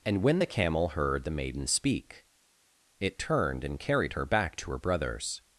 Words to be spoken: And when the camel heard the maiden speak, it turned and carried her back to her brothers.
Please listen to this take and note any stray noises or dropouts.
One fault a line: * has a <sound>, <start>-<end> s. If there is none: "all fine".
all fine